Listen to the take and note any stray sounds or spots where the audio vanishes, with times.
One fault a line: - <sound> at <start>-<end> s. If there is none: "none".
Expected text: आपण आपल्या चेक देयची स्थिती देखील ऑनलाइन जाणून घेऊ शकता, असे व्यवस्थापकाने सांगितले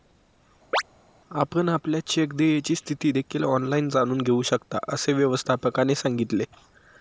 - chirp at 0.7-0.8 s